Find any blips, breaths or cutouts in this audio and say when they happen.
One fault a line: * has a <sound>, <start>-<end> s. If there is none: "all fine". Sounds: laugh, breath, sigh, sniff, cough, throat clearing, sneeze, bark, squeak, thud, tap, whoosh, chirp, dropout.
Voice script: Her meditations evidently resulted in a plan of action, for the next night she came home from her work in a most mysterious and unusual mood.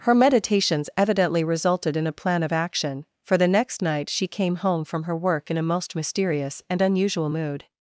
all fine